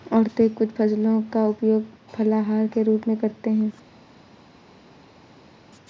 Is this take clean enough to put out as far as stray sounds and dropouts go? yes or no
yes